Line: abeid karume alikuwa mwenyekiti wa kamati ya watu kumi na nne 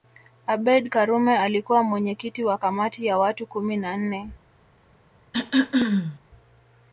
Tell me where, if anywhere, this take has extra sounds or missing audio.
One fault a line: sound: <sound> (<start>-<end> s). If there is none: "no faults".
sound: throat clearing (5.3-6.2 s)